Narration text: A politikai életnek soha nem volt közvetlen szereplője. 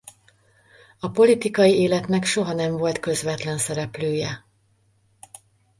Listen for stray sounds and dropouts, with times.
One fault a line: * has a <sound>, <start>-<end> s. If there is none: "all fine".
all fine